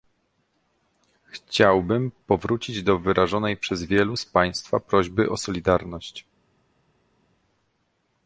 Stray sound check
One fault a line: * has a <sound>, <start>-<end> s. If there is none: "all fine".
all fine